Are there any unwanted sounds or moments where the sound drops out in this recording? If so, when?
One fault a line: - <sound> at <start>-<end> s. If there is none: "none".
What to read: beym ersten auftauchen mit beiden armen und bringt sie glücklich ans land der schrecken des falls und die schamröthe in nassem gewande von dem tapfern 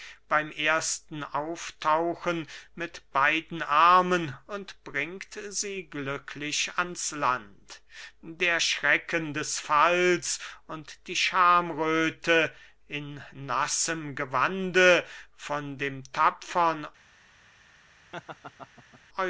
- laugh at 18.1-19.0 s